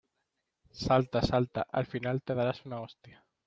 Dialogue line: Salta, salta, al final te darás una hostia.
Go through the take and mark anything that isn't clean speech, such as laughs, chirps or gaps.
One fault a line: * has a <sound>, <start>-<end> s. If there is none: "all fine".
all fine